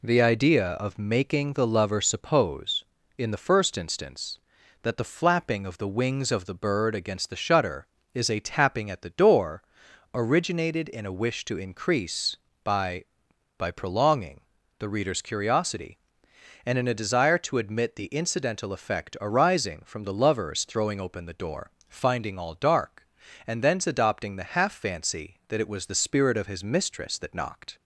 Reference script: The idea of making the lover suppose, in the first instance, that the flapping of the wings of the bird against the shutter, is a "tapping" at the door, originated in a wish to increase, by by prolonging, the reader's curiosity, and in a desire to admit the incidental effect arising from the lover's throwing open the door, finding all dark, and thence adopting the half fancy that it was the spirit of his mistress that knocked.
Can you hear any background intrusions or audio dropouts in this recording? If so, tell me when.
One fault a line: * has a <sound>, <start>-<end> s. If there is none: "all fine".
all fine